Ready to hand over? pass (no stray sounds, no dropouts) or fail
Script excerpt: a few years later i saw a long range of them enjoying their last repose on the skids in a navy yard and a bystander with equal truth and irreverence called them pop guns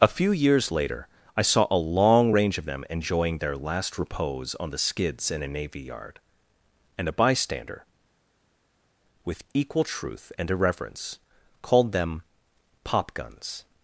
pass